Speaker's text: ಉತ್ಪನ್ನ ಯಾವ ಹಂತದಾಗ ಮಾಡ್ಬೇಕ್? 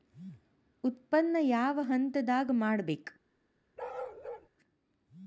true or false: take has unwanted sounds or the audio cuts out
true